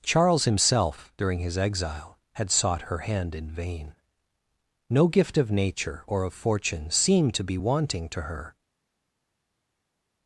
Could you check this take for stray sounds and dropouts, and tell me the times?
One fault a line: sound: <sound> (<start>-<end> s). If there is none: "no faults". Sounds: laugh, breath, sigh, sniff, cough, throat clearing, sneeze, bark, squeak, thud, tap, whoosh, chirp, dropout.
no faults